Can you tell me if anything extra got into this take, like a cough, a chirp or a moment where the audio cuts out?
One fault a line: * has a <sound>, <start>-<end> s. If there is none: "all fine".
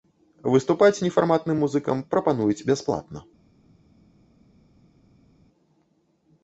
all fine